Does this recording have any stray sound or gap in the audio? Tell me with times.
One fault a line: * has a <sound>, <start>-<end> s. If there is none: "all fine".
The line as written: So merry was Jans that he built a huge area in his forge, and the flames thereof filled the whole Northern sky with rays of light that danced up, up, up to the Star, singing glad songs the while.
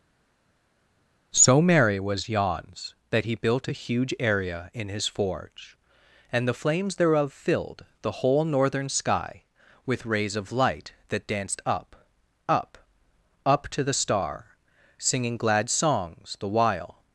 all fine